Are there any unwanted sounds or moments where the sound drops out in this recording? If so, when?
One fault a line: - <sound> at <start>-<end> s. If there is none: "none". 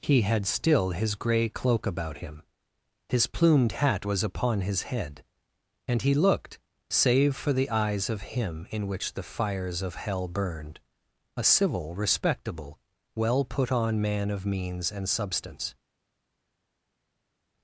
none